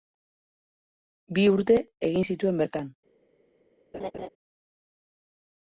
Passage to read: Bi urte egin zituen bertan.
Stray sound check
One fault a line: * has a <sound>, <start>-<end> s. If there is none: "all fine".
* has a laugh, 3.9-4.3 s